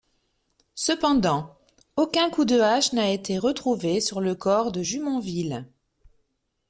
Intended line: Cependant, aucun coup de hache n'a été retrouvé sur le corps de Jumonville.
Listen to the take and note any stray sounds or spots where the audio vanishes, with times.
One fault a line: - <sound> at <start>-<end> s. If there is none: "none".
none